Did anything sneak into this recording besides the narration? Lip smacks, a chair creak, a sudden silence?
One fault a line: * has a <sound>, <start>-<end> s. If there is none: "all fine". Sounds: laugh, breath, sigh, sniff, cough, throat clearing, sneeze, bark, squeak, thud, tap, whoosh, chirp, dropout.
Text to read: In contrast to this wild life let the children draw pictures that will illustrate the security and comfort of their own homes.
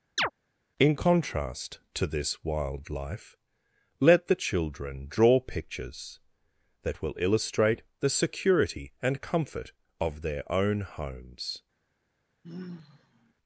* has a chirp, 0.2-0.3 s
* has a sigh, 12.4-13.3 s